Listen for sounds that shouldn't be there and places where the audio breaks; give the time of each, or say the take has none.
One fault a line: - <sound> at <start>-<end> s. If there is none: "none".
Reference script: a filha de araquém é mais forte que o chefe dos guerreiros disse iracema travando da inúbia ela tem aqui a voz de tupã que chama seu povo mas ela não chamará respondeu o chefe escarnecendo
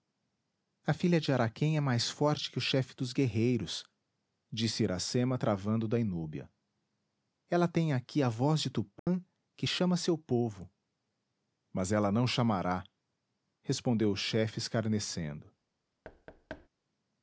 - dropout at 9.0-9.1 s
- thud at 16.0-16.7 s